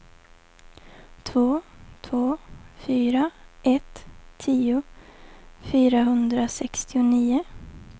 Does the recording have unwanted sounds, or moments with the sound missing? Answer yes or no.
no